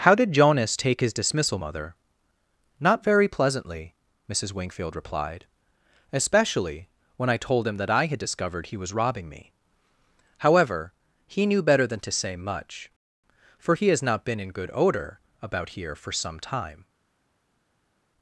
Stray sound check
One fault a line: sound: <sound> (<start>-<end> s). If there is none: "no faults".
no faults